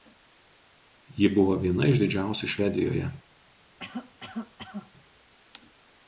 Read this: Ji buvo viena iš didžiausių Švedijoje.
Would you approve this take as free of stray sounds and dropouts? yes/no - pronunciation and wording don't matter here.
no